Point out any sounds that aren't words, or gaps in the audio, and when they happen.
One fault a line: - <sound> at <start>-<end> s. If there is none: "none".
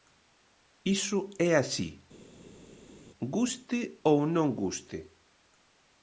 none